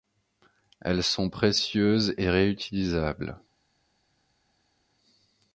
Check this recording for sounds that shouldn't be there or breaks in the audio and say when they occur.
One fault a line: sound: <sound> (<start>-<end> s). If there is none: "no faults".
no faults